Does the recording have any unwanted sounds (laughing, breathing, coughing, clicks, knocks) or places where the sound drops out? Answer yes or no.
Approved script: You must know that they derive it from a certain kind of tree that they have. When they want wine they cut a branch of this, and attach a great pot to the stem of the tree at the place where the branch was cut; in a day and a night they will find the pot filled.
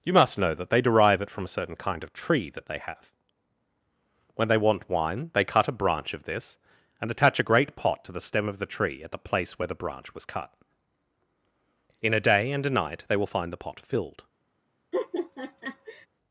yes